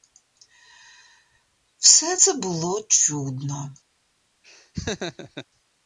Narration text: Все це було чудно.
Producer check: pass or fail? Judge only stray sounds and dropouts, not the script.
fail